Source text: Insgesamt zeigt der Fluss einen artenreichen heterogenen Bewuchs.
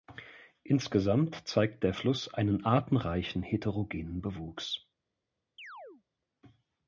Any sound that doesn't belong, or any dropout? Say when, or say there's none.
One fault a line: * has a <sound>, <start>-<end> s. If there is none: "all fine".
* has a chirp, 5.6-6.0 s